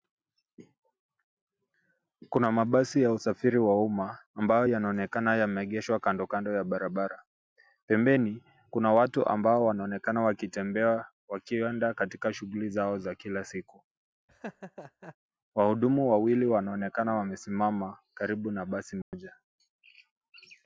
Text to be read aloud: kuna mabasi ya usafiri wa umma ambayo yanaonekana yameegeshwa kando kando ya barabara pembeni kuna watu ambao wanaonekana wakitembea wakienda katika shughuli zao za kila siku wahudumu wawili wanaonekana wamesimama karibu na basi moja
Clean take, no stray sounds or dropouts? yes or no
no